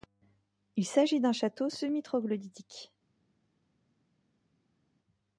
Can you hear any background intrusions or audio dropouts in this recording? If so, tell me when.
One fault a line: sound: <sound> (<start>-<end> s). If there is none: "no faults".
no faults